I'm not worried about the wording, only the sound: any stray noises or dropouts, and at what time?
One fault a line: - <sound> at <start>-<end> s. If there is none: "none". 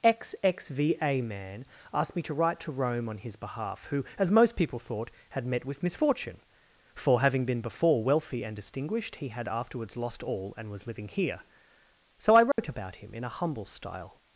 - dropout at 12.5-12.6 s